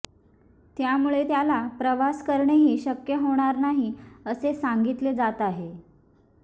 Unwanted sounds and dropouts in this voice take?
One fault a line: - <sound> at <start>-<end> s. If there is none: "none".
none